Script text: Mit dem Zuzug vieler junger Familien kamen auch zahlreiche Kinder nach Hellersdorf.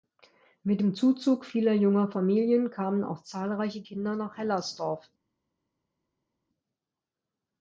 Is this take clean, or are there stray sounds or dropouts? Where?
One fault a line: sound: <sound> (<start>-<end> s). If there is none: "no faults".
no faults